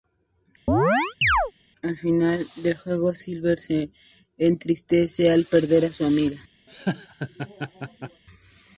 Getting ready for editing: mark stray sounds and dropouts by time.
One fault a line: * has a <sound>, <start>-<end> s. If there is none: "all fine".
* has a chirp, 0.7-1.5 s
* has a laugh, 6.7-8.2 s